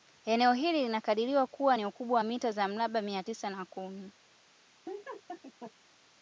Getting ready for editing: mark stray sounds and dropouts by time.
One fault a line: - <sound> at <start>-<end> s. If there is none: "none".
- laugh at 4.8-5.7 s